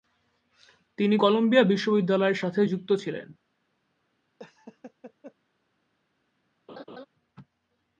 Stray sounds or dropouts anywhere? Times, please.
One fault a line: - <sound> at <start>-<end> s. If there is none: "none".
- laugh at 4.4-5.3 s
- laugh at 6.7-7.1 s